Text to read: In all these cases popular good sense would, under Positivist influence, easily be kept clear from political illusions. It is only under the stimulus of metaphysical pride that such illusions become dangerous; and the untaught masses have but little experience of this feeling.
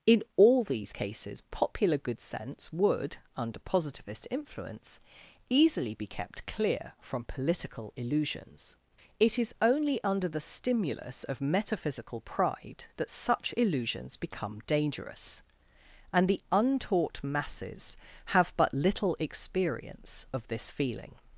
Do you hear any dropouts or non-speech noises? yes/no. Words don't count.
no